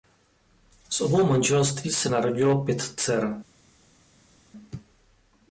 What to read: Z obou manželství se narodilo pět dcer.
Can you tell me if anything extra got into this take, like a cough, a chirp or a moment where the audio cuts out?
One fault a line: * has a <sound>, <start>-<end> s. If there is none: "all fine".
all fine